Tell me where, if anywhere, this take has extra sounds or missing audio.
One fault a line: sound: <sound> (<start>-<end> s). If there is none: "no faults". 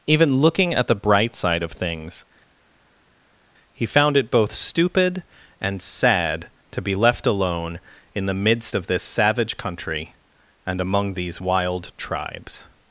no faults